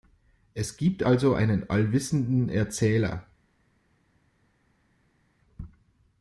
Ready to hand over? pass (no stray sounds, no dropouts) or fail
pass